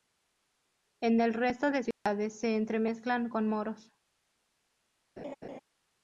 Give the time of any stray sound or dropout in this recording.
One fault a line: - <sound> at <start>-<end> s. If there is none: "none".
- dropout at 1.9-2.1 s
- laugh at 5.2-5.6 s